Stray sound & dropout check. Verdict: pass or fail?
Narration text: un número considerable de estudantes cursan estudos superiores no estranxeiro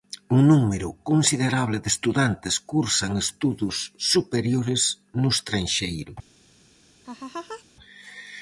fail